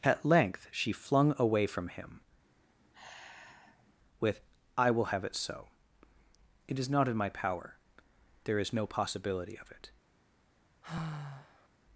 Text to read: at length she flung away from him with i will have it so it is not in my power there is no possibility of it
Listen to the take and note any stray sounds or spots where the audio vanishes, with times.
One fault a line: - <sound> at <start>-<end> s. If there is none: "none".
- sigh at 2.4-3.9 s
- sigh at 10.8-11.7 s